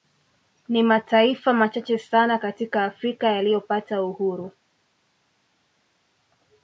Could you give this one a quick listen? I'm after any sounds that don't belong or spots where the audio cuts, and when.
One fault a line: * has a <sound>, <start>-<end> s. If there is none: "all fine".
all fine